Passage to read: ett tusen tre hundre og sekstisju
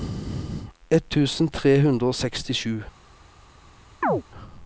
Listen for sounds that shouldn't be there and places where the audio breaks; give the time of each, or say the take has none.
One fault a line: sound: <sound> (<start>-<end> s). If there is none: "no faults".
sound: chirp (4.0-4.2 s)